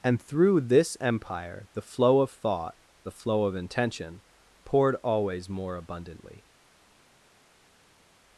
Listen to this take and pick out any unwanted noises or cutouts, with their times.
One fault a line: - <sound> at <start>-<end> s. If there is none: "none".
none